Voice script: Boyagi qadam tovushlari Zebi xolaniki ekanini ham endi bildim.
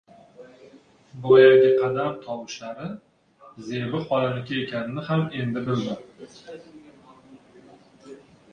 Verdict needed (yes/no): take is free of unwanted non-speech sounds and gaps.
yes